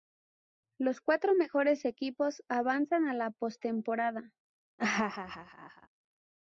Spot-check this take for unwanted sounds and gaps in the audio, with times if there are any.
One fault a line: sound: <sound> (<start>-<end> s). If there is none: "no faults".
sound: laugh (4.8-5.9 s)